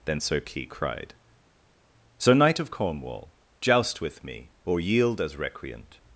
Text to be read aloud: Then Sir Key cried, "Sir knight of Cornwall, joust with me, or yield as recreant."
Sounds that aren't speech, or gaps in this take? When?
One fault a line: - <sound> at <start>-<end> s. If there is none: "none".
none